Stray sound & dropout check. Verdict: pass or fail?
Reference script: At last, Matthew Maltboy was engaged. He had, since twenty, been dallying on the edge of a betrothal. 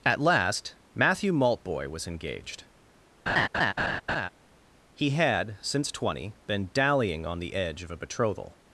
fail